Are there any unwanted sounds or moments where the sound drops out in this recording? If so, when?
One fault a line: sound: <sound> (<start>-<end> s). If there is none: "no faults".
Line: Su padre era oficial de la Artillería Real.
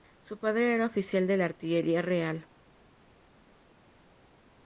no faults